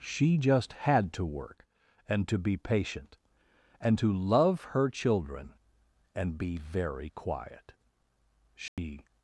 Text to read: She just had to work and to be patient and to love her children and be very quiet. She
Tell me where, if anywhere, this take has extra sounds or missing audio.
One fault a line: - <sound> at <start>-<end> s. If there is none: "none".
- dropout at 8.7-8.8 s